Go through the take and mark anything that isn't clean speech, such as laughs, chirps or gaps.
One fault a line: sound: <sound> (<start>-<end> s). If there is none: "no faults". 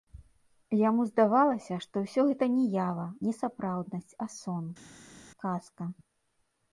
no faults